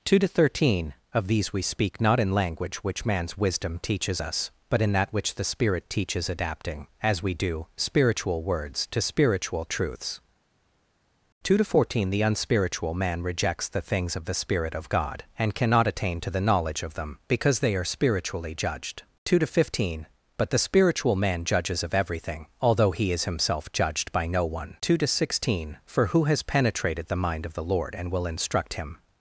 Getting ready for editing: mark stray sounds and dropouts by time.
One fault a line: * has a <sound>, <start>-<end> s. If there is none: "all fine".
all fine